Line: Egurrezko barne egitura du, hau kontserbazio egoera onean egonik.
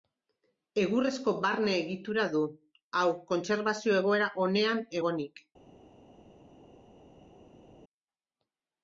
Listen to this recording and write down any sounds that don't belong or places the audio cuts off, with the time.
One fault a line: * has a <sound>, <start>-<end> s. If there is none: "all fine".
all fine